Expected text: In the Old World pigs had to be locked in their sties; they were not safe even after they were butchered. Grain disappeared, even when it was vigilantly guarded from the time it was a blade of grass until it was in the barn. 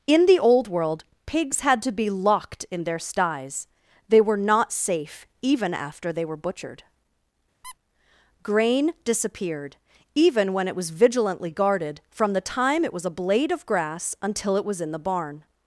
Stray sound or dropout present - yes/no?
yes